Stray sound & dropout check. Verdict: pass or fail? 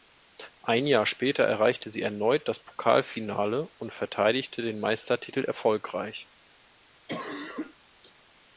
fail